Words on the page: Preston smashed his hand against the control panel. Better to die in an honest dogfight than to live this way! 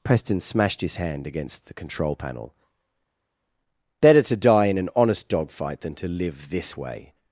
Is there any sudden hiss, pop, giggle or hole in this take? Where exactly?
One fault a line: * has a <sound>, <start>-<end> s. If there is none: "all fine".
all fine